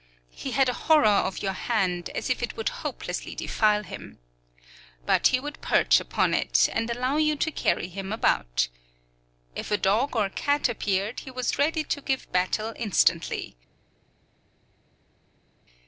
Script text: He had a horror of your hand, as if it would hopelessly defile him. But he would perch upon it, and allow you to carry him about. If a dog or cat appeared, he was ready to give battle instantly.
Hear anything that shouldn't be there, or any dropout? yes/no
no